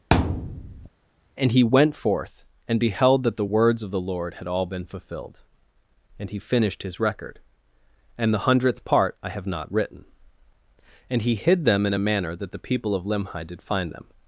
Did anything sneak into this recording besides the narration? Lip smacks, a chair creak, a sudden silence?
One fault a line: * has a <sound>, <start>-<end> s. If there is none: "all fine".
* has a thud, 0.1-0.9 s